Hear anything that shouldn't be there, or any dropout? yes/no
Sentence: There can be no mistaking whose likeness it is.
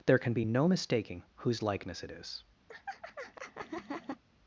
yes